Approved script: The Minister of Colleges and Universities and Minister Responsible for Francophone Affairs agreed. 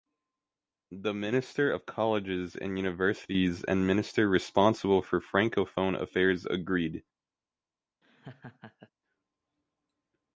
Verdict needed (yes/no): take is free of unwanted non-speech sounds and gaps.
no